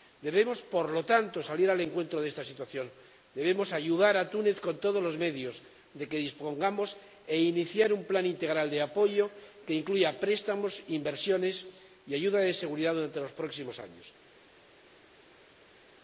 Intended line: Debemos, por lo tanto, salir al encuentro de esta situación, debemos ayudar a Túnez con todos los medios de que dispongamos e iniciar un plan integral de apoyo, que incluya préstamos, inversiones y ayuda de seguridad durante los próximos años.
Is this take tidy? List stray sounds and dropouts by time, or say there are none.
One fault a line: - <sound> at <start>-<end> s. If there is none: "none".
none